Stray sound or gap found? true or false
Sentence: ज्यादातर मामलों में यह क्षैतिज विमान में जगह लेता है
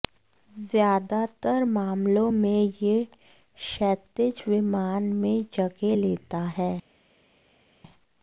false